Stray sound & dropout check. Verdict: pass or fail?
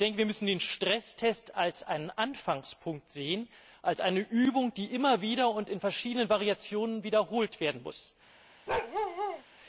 fail